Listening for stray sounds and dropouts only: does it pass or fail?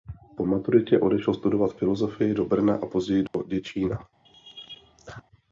fail